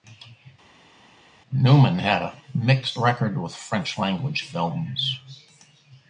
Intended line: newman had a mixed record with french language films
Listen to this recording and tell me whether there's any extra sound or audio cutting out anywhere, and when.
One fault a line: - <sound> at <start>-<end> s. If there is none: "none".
none